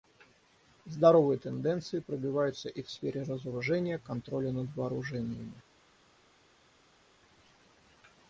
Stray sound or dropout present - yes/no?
no